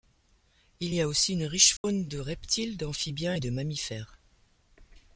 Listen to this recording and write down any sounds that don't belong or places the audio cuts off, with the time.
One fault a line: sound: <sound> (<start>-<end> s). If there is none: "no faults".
sound: dropout (1.8-1.8 s)